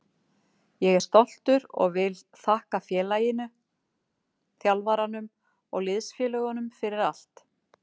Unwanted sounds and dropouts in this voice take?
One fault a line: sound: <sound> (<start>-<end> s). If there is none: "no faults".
no faults